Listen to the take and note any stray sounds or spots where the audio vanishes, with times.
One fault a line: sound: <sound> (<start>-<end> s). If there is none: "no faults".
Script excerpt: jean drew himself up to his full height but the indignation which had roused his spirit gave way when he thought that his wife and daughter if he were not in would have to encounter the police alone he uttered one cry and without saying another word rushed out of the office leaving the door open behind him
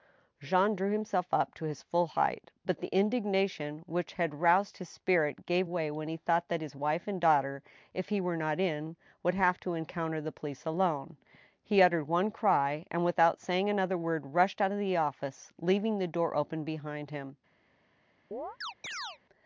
sound: chirp (18.3-19.2 s)